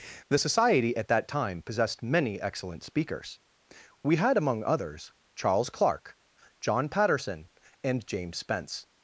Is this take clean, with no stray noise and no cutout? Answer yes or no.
yes